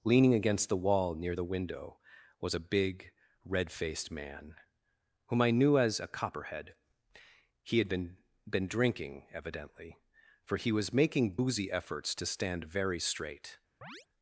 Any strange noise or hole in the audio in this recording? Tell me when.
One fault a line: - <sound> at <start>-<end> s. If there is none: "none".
- chirp at 13.8-14.1 s